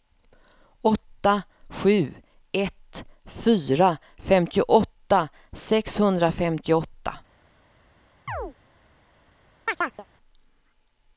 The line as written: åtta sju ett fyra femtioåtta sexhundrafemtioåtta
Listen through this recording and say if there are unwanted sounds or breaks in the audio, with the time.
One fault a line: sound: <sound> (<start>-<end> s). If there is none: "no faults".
sound: chirp (8.3-8.5 s)
sound: chirp (9.7-10.1 s)